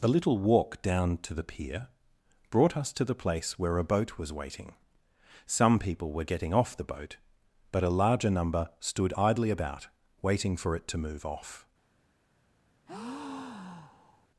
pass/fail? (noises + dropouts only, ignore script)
fail